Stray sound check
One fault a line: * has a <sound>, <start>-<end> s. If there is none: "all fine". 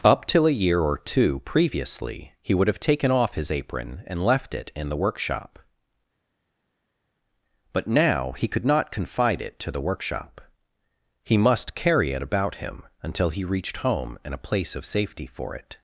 all fine